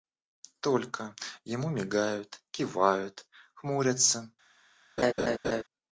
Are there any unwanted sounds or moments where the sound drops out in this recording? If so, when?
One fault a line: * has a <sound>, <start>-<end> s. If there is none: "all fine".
* has a laugh, 5.0-5.6 s